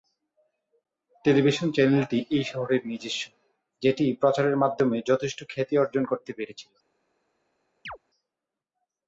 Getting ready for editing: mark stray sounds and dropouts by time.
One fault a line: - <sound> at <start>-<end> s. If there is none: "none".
- chirp at 7.9-8.0 s